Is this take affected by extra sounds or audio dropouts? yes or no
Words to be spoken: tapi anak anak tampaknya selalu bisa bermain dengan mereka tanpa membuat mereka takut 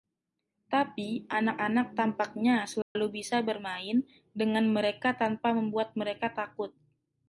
yes